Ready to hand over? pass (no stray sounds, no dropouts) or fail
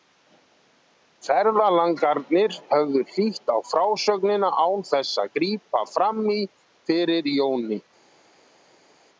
pass